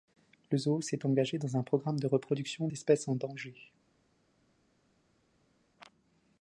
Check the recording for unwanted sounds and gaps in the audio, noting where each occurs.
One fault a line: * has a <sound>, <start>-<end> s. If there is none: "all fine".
all fine